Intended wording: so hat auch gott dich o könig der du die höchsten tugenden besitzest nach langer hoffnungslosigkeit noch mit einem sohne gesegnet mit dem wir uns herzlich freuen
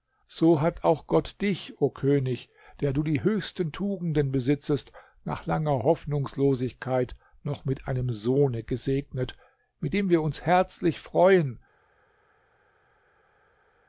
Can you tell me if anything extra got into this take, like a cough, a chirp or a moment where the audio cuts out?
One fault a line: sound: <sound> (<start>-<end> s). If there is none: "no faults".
no faults